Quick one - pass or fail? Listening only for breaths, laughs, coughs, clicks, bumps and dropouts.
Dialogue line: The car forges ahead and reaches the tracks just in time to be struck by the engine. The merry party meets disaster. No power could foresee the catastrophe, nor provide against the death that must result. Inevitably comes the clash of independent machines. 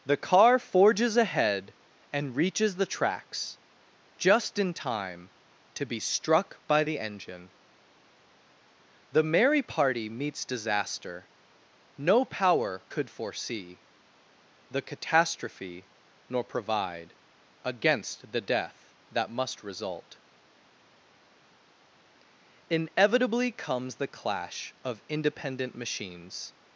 pass